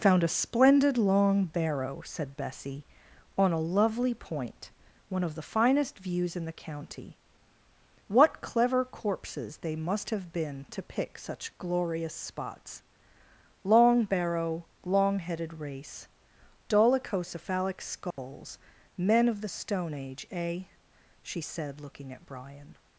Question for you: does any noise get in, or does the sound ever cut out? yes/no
yes